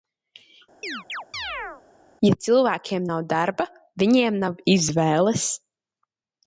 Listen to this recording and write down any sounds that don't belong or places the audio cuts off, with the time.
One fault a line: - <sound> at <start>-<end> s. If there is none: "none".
- chirp at 0.8-1.8 s